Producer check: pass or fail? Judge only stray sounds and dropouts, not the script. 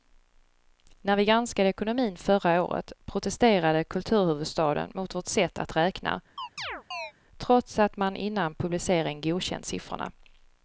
fail